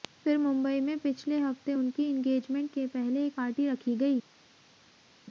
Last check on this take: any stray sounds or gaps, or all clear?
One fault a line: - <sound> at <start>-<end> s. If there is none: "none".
none